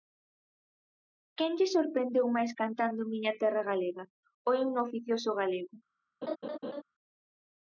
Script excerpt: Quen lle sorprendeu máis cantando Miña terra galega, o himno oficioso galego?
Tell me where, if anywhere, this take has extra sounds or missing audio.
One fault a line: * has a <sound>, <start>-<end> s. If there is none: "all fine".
* has a laugh, 6.2-6.8 s